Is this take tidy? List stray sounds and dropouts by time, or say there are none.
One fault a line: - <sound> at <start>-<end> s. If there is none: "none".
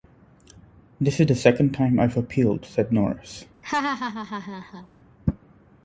- laugh at 3.6-4.9 s